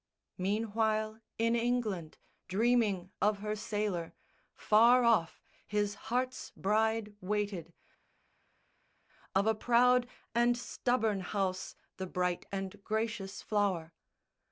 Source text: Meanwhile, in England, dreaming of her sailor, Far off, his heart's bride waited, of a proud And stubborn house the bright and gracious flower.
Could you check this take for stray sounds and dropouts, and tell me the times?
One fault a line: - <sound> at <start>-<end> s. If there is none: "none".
none